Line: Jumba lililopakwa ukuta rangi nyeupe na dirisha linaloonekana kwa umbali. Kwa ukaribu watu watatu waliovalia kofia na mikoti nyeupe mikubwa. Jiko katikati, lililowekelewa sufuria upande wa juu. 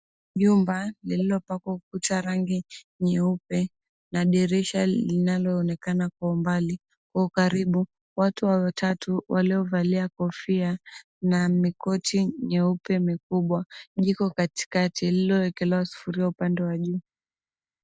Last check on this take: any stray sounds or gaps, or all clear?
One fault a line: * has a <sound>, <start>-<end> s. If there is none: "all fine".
all fine